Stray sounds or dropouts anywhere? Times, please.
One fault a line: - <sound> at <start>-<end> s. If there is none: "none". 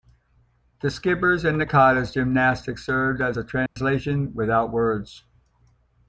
- dropout at 3.7-3.8 s